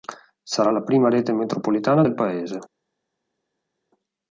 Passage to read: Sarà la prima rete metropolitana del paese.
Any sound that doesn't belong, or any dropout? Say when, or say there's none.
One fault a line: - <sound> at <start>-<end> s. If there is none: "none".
none